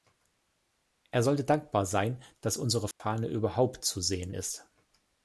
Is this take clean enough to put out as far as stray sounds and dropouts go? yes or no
no